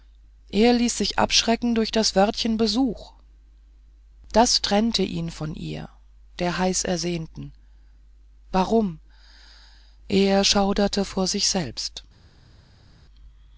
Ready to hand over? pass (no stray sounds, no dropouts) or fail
pass